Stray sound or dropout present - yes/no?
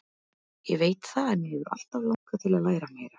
yes